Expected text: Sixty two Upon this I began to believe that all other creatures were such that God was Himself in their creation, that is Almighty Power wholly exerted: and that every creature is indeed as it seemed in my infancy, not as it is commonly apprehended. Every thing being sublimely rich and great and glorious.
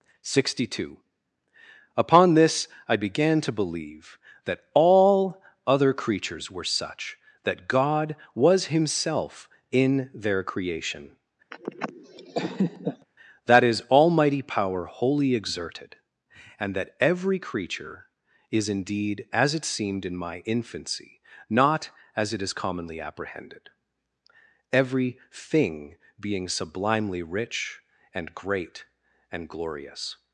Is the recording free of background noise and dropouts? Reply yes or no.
no